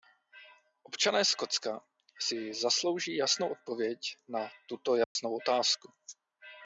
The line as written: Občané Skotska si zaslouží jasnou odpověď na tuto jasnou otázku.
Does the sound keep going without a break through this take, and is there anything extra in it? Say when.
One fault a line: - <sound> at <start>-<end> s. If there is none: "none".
- dropout at 5.0-5.2 s